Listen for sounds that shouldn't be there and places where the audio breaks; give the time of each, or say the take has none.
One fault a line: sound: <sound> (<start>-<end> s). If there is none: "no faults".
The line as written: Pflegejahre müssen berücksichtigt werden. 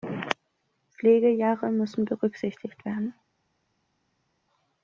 no faults